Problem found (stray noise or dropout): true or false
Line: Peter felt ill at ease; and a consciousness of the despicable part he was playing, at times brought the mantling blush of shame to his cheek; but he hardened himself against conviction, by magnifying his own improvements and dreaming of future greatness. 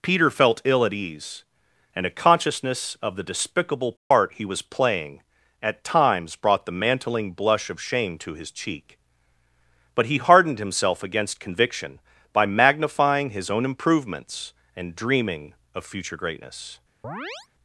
true